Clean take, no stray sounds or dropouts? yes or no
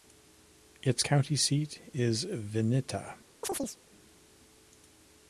no